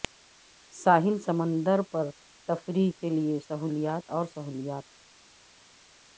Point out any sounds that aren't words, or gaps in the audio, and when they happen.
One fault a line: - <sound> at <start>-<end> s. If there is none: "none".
none